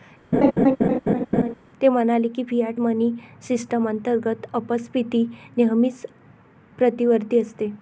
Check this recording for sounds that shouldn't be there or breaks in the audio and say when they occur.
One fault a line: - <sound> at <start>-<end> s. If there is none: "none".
- laugh at 0.3-1.5 s